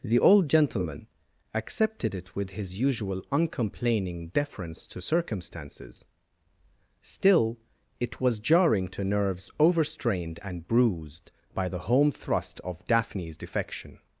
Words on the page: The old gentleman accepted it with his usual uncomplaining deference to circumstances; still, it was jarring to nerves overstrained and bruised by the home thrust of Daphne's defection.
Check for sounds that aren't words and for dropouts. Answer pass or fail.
pass